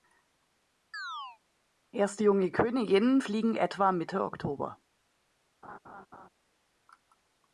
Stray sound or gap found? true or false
true